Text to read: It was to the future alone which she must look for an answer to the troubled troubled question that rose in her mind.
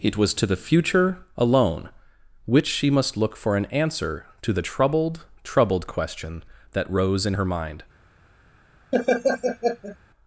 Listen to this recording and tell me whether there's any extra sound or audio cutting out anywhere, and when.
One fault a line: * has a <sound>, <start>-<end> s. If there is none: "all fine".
* has a laugh, 8.9-10.0 s